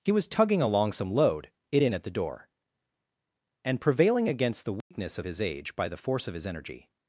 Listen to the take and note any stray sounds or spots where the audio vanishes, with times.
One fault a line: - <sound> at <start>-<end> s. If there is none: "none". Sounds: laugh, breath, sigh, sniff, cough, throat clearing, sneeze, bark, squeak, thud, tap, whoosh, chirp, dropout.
- dropout at 4.8-4.9 s